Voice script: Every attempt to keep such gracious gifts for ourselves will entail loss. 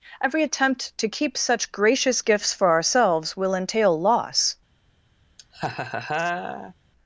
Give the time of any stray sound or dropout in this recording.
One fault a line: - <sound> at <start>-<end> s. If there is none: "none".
- laugh at 5.4-6.7 s